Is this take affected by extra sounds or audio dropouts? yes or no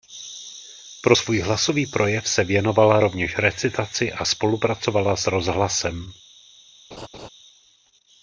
yes